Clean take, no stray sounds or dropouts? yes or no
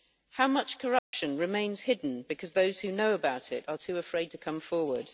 no